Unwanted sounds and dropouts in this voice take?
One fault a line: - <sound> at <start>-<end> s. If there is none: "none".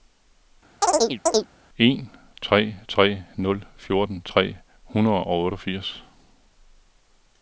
- chirp at 0.8-1.5 s